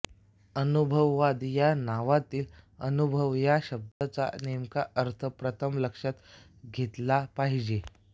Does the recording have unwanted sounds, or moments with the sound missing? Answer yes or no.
yes